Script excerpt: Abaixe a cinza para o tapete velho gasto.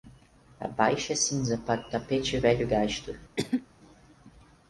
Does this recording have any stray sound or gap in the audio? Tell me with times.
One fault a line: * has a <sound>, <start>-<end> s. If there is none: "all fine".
* has a cough, 3.4-3.7 s